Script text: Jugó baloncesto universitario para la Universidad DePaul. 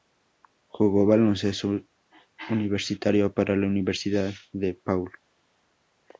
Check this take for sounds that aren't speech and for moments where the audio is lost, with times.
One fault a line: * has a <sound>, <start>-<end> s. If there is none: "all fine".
all fine